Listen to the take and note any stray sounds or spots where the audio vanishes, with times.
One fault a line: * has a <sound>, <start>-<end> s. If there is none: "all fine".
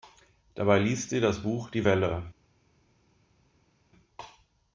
all fine